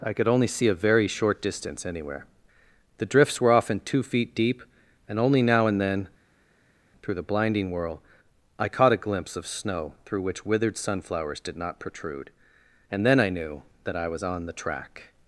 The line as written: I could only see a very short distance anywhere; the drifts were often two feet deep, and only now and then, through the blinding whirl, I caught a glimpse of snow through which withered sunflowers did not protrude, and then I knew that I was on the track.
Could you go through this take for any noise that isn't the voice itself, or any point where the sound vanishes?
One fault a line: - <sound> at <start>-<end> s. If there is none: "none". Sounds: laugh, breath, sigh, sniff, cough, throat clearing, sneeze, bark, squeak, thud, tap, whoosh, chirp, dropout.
none